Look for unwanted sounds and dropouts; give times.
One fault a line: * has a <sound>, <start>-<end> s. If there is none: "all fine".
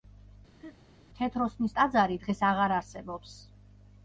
* has a laugh, 0.6-0.8 s